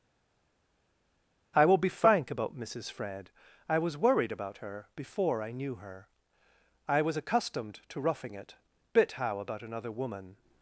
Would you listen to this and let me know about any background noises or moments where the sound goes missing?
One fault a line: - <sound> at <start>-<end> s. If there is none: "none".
none